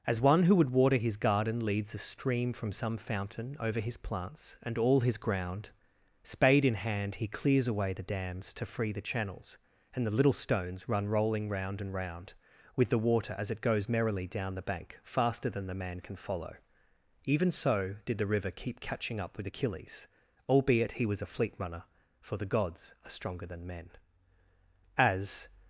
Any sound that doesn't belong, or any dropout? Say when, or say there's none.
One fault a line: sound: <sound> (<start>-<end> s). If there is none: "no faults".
no faults